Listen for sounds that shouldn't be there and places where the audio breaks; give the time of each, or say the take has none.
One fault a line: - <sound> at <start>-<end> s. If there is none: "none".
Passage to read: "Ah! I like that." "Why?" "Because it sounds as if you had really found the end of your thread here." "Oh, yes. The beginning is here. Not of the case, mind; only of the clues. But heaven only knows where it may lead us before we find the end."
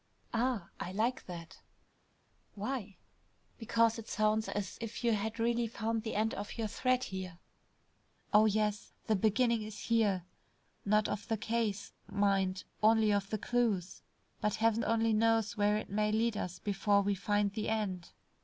none